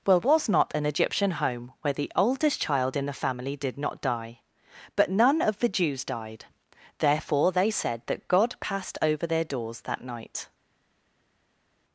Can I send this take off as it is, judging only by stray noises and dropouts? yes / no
yes